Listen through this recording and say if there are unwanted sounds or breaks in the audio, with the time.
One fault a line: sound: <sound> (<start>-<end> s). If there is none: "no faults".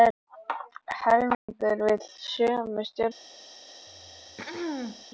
sound: dropout (1.3-1.5 s)
sound: throat clearing (3.9-5.1 s)